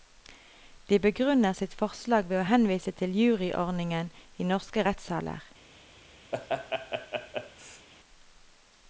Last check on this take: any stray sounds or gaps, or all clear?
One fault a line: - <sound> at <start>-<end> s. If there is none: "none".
- laugh at 6.3-7.9 s